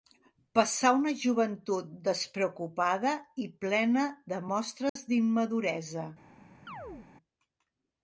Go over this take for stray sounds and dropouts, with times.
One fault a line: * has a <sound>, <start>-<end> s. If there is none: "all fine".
* has a dropout, 4.9-5.0 s
* has a chirp, 6.7-7.1 s